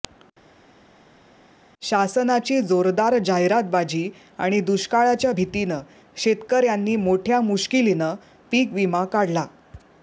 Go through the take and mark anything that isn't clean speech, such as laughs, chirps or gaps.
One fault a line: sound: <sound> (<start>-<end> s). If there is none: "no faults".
no faults